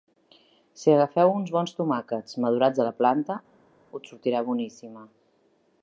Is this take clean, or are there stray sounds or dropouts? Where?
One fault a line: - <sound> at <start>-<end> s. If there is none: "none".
none